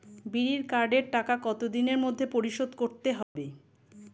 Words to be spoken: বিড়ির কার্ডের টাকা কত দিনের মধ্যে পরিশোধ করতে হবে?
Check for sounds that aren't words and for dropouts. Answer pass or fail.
fail